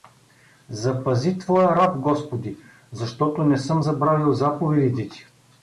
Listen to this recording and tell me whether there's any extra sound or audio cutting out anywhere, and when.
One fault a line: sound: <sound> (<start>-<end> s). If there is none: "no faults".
no faults